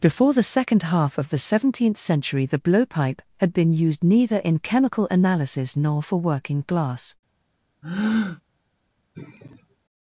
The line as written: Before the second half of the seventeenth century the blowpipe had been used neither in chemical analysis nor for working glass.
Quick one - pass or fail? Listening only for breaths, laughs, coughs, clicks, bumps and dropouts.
fail